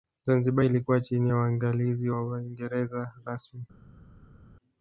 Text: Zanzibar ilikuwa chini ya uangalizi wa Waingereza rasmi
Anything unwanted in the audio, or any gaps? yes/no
no